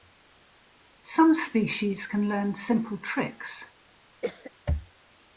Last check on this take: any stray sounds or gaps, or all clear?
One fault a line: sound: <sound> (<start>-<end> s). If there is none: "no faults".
sound: cough (4.2-4.5 s)